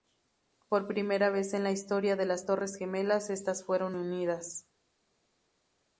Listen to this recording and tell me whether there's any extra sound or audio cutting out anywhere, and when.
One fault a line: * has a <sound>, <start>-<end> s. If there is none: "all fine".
all fine